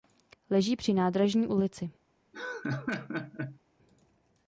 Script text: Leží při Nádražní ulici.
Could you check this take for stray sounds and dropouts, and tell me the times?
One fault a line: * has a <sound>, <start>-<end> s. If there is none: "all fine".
* has a laugh, 2.3-3.6 s